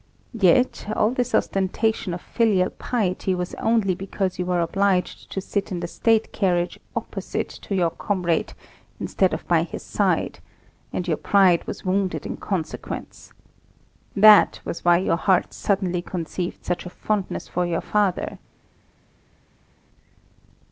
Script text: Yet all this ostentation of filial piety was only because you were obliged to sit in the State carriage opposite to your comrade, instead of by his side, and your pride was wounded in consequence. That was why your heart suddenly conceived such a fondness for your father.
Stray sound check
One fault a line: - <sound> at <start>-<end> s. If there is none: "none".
none